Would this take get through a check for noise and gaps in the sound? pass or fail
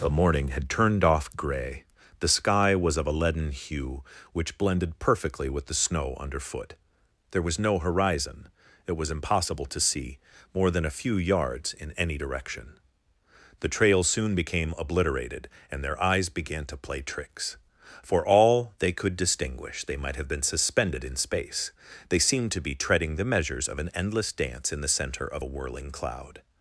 pass